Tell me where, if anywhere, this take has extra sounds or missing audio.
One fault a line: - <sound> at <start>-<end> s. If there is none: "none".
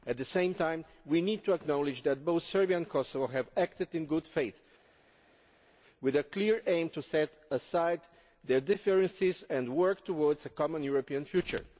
none